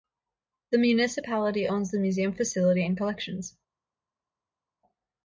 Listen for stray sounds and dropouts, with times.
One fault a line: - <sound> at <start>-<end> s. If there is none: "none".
none